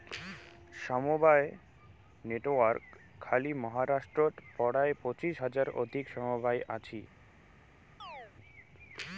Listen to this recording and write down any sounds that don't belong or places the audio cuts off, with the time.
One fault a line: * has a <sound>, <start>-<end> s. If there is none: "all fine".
* has a chirp, 8.0-8.3 s